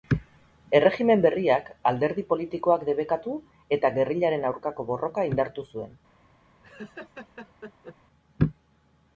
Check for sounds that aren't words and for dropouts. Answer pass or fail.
fail